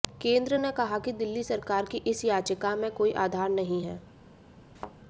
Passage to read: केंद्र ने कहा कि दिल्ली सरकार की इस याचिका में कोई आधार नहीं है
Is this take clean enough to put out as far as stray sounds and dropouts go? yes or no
no